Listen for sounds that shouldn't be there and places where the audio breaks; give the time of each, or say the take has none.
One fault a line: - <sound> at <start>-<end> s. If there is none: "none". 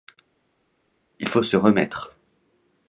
none